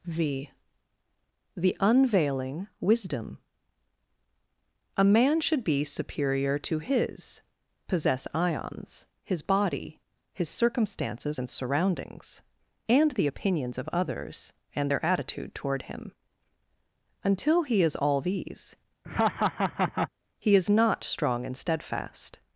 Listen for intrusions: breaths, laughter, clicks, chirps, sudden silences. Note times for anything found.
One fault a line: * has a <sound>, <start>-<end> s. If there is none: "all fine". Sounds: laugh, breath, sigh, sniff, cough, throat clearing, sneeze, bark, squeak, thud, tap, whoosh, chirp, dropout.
* has a laugh, 19.0-20.1 s